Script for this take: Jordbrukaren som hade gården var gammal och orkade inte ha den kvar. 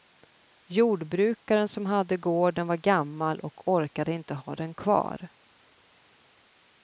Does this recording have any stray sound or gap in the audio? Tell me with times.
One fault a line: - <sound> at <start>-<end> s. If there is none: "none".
none